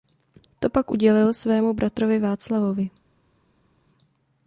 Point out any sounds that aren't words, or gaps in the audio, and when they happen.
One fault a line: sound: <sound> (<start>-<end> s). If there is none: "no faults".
no faults